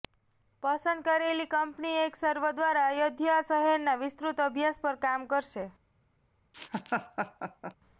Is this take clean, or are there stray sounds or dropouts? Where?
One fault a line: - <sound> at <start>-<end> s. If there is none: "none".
- laugh at 6.5-7.8 s